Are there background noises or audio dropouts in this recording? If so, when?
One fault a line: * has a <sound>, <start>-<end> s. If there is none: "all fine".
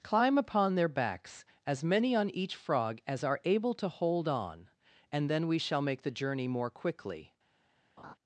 * has a laugh, 8.0-8.2 s